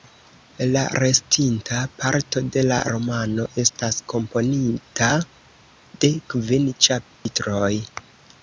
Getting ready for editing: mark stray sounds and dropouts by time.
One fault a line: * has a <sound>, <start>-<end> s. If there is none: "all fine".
* has a dropout, 7.1-7.3 s